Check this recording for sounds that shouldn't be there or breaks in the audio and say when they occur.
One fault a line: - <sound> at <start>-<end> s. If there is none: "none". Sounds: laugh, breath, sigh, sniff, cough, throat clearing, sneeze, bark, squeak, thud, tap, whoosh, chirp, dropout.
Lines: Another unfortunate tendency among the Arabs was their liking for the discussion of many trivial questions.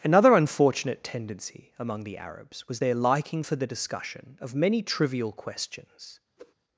- whoosh at 6.4-6.5 s